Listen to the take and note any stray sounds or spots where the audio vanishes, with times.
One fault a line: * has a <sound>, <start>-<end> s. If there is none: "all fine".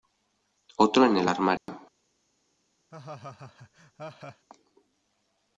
* has a dropout, 1.6-1.7 s
* has a laugh, 2.9-4.5 s